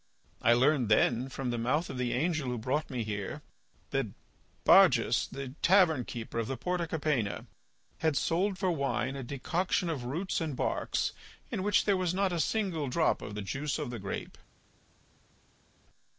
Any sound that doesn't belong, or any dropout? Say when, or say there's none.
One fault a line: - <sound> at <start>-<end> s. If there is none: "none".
none